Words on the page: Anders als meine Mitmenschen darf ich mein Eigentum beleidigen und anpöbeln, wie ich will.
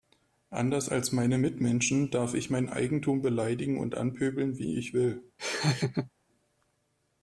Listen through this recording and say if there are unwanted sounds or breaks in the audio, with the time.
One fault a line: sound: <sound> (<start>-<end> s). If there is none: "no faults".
sound: laugh (5.4-6.1 s)